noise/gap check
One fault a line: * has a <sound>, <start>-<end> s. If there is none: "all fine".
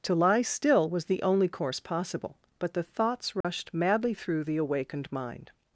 * has a dropout, 3.4-3.4 s